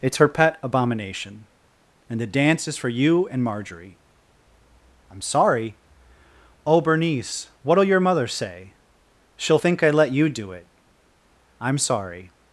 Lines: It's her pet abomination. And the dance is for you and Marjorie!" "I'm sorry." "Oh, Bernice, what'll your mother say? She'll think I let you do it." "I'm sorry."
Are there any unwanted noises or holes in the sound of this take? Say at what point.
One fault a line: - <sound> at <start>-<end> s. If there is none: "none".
none